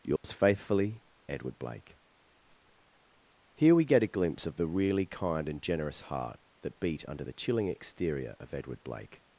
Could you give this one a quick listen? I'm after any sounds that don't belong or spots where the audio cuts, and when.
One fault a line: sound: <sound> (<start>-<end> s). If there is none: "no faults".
sound: dropout (0.2-0.2 s)